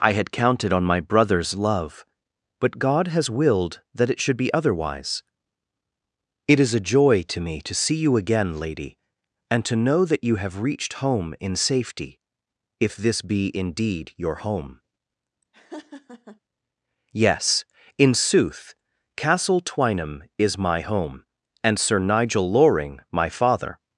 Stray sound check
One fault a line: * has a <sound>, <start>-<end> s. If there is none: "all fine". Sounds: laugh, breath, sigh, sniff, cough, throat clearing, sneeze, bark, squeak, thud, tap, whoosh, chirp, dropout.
* has a laugh, 15.5-16.4 s